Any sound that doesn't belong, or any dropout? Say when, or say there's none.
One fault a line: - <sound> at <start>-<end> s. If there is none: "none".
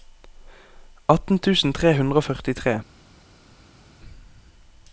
none